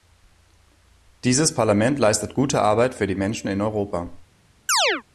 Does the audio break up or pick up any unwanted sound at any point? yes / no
yes